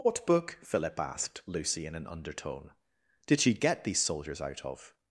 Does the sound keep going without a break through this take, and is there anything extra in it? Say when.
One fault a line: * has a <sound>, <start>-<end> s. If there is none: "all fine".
all fine